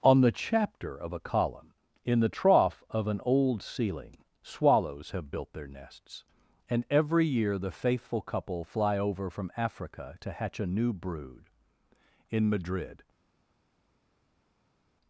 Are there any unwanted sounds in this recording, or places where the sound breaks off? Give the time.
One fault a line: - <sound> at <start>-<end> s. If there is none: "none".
none